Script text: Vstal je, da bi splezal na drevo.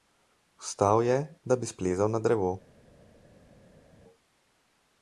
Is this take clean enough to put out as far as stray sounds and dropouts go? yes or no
yes